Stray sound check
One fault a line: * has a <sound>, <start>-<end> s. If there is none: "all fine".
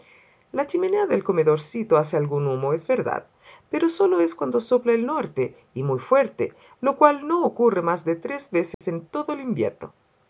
* has a dropout, 8.7-8.8 s